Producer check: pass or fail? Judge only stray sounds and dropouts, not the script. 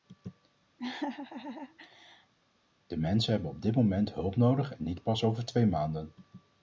fail